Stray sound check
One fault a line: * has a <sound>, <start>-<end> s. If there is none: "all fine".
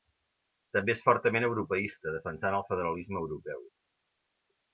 all fine